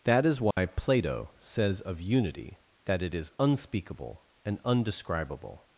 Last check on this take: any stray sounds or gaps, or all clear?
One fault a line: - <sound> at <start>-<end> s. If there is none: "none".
- dropout at 0.5-0.6 s